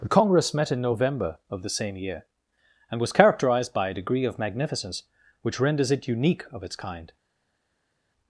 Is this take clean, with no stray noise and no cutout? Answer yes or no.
yes